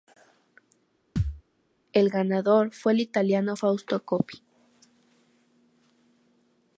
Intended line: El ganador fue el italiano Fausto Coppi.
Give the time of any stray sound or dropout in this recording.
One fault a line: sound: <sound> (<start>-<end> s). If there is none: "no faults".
sound: thud (1.2-1.4 s)